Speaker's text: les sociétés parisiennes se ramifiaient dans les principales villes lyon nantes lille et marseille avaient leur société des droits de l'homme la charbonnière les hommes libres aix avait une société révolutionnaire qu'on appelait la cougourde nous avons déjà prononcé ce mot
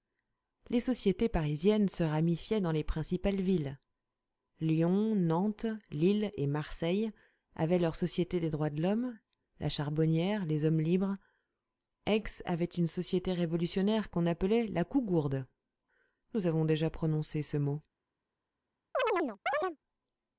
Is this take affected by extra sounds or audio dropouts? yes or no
yes